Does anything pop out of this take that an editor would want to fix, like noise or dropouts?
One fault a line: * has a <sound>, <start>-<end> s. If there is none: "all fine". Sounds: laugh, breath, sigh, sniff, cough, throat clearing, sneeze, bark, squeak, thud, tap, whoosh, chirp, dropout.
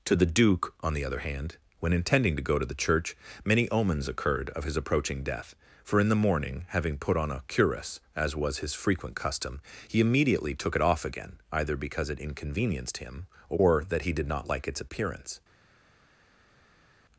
all fine